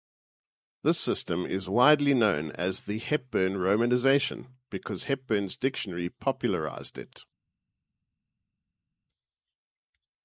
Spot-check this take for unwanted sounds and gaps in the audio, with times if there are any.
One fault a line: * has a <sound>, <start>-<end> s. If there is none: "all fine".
all fine